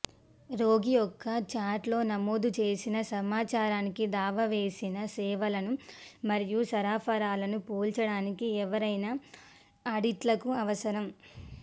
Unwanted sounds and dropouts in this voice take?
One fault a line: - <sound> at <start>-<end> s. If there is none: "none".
none